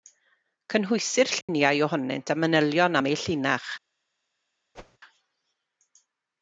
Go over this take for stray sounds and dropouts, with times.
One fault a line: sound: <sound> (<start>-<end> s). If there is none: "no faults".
sound: dropout (1.4-1.5 s)
sound: whoosh (4.7-5.0 s)